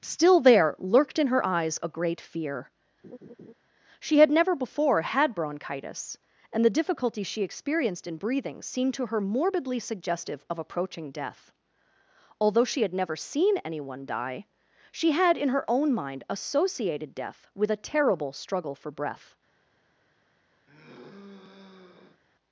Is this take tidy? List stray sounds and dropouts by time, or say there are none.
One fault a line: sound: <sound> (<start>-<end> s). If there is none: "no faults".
sound: laugh (3.0-3.5 s)
sound: sigh (20.7-22.2 s)